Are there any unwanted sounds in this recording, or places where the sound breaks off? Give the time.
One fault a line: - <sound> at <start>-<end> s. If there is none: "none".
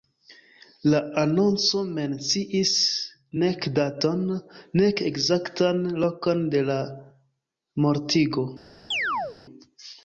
- chirp at 8.9-9.4 s